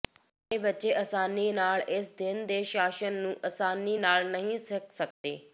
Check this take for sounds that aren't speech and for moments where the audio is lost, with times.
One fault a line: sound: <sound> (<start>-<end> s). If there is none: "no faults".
sound: dropout (5.1-5.2 s)